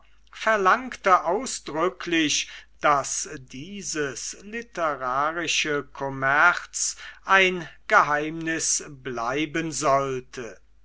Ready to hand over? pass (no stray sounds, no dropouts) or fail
pass